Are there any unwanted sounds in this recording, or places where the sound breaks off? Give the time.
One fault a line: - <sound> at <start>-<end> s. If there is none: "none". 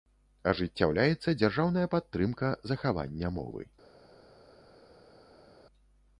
none